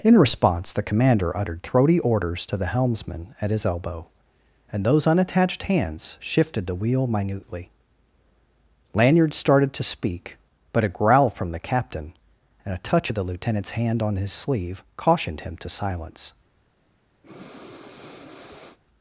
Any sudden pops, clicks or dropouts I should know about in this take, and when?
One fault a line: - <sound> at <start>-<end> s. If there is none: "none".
- breath at 17.2-18.8 s